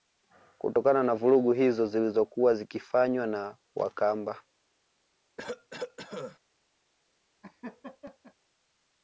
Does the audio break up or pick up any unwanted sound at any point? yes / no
yes